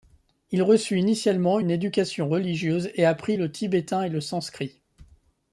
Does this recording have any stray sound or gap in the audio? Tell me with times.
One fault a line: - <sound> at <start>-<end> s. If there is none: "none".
none